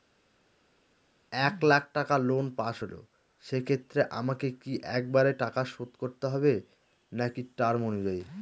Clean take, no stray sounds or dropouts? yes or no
yes